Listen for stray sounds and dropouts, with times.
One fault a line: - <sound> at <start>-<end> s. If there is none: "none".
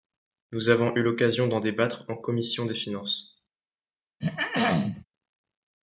- throat clearing at 4.2-5.0 s